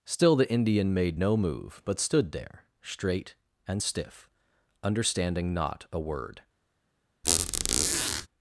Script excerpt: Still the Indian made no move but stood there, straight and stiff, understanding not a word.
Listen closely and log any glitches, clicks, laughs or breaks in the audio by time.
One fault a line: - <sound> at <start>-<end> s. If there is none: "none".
- squeak at 7.2-8.3 s